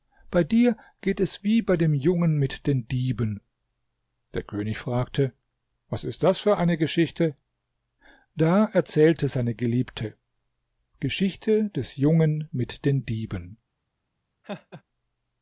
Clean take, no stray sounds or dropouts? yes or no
no